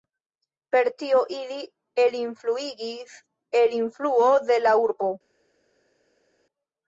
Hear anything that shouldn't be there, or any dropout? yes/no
no